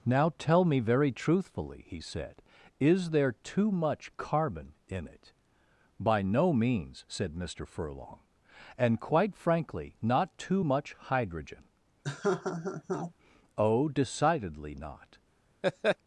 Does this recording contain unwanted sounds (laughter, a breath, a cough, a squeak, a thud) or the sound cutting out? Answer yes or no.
yes